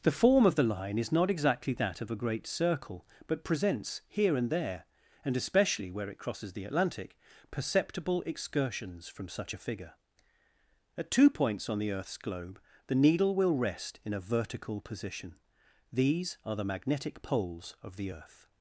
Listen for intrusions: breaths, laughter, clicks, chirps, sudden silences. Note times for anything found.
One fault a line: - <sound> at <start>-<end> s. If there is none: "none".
none